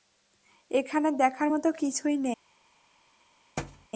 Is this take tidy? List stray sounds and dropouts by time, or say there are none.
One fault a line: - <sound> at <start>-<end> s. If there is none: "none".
- thud at 3.6-3.9 s